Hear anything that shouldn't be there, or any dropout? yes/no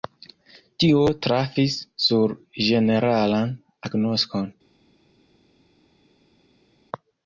no